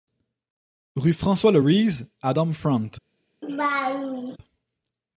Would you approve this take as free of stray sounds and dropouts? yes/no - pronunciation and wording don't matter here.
no